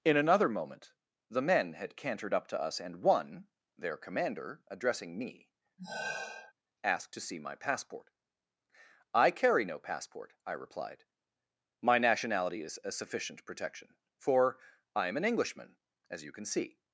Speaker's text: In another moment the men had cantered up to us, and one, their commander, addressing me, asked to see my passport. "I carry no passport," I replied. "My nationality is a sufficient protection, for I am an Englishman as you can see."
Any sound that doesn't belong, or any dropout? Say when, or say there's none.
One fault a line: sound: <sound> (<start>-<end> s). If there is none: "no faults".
sound: sigh (5.8-6.5 s)